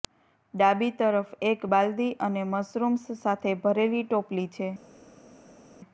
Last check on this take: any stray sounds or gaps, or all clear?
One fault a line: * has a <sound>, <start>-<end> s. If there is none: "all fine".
all fine